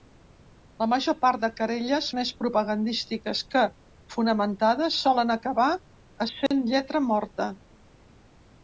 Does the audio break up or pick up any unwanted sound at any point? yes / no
yes